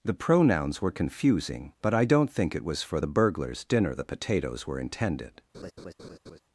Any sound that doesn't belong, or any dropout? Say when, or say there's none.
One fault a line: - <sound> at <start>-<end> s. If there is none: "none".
- laugh at 5.5-6.4 s